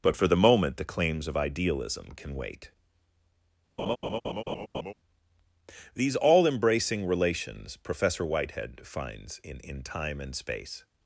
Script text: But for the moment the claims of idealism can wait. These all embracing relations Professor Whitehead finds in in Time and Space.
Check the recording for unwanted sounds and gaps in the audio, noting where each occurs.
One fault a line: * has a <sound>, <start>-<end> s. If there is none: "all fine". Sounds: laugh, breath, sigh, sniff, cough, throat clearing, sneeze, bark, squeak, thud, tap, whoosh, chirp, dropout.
* has a laugh, 3.8-4.9 s